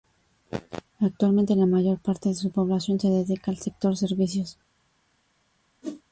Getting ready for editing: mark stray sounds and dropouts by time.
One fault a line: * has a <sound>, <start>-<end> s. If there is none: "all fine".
* has a whoosh, 5.8-6.0 s